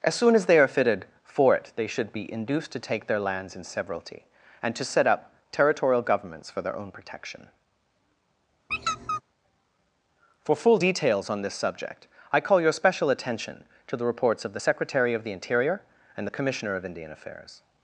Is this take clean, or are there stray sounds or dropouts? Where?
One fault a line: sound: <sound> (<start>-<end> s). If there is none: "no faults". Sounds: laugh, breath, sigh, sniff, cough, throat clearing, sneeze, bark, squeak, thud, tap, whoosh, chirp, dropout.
sound: squeak (8.7-9.2 s)